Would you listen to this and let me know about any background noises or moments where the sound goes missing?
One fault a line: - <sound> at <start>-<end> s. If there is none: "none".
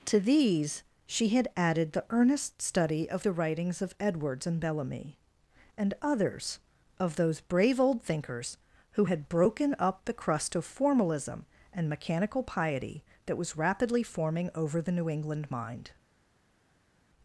none